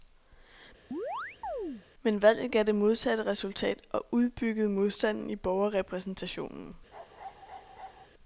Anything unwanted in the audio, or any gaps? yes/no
yes